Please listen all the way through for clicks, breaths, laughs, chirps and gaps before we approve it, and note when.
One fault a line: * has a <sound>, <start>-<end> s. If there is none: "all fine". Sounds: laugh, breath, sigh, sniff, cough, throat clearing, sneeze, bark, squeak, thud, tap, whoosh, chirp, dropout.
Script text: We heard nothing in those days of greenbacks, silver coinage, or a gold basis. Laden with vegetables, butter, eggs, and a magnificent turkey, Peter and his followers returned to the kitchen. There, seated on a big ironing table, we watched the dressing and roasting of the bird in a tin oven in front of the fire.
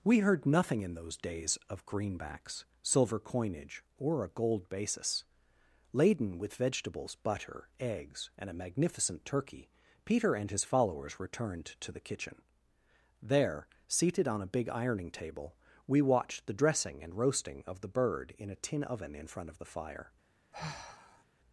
* has a sigh, 20.5-21.2 s